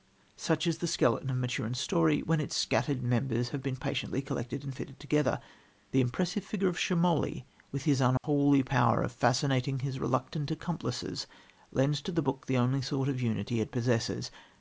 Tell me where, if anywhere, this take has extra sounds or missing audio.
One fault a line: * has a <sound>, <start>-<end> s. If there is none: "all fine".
* has a dropout, 8.2-8.2 s